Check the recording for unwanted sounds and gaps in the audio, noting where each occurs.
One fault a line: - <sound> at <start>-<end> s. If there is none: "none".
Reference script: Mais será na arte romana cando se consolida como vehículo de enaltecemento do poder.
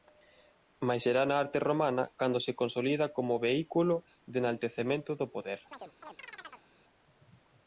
- chirp at 5.7-6.7 s